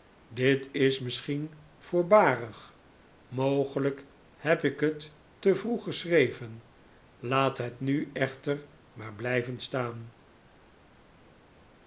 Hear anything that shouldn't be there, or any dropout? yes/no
no